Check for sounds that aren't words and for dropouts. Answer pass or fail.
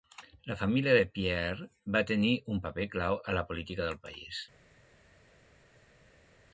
pass